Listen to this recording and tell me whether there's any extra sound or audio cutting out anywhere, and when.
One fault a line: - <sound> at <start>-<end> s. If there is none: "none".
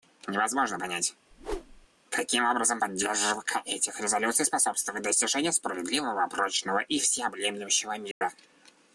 - whoosh at 1.3-1.9 s
- dropout at 8.1-8.2 s